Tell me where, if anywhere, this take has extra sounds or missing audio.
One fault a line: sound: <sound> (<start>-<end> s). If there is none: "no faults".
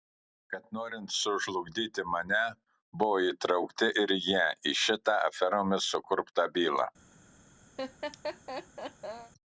sound: laugh (7.8-9.3 s)